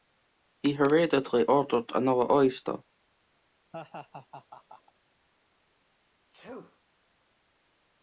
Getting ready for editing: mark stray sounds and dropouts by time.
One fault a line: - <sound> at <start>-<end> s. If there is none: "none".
- laugh at 3.7-4.9 s
- sneeze at 6.3-6.8 s